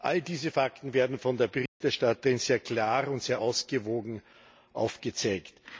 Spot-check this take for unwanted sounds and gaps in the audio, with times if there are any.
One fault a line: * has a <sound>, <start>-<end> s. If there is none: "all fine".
* has a dropout, 1.7-1.8 s